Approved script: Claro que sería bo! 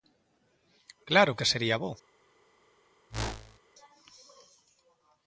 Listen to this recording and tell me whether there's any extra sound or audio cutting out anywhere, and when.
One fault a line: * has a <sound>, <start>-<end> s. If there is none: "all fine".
* has a whoosh, 3.1-3.6 s